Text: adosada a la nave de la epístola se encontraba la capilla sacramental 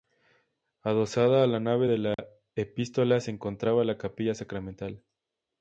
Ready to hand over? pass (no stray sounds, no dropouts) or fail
fail